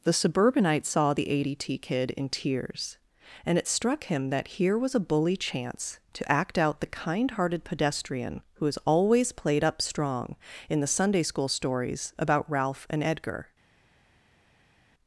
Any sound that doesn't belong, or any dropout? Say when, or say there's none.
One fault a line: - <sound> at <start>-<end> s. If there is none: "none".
none